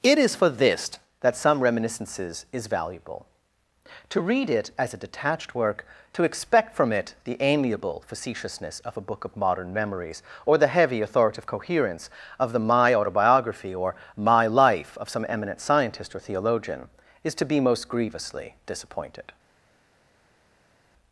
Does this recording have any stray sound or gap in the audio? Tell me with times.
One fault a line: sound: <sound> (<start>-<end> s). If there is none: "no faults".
no faults